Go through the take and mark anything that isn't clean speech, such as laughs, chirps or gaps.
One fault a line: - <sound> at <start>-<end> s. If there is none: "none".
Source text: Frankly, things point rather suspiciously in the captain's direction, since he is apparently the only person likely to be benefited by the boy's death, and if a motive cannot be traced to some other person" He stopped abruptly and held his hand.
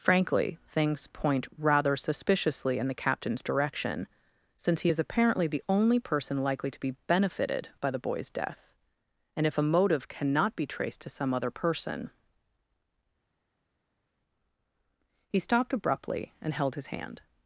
none